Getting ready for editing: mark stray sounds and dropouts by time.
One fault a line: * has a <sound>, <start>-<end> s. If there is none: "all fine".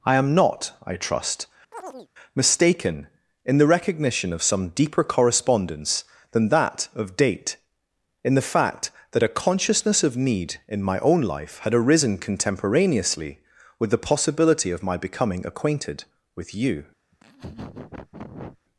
* has a chirp, 1.7-2.1 s
* has a laugh, 17.1-18.6 s